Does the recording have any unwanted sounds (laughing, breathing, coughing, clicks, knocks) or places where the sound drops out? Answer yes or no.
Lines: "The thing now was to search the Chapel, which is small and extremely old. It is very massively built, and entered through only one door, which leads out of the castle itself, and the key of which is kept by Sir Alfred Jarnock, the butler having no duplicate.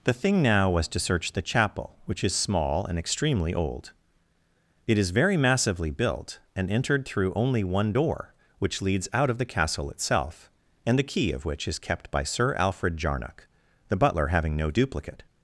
no